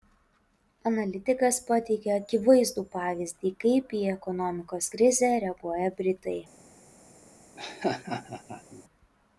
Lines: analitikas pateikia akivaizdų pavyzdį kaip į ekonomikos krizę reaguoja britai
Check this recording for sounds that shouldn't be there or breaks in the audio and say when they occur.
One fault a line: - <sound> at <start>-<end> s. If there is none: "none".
- laugh at 7.6-8.8 s